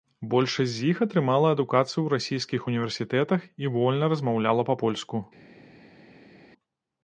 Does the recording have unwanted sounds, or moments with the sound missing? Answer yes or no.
no